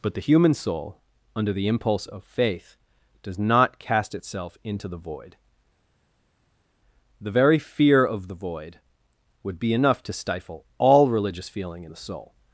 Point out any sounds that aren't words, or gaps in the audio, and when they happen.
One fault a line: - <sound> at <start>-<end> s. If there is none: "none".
none